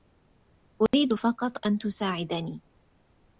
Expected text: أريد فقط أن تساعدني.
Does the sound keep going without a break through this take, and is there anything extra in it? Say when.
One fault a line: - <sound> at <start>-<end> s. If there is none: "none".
- dropout at 0.9-0.9 s